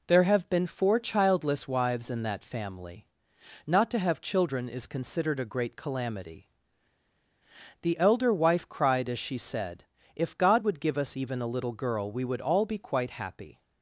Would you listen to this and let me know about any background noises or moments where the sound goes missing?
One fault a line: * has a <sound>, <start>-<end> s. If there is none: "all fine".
all fine